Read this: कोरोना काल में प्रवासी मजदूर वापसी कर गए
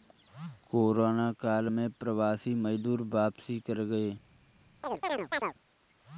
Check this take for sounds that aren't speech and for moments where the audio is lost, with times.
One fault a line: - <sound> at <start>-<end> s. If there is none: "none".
- chirp at 4.8-5.5 s